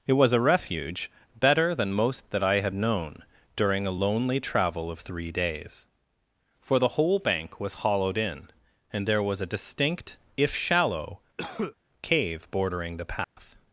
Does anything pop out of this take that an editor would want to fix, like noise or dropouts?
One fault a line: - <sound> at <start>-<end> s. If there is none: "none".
- cough at 11.4-11.8 s
- dropout at 13.2-13.4 s